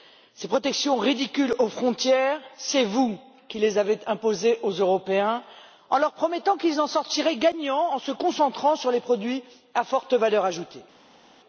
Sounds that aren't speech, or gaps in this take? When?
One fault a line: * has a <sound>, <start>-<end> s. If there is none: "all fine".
all fine